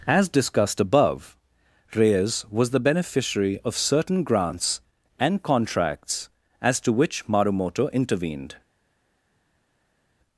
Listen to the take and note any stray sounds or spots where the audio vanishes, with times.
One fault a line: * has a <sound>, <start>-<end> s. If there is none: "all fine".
all fine